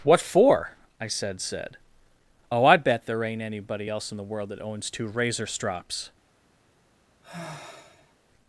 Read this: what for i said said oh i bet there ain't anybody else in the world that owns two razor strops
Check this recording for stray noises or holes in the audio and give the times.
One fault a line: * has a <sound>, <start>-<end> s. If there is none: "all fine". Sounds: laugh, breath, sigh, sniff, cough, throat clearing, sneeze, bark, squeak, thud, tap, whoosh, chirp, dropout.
* has a sigh, 7.2-8.1 s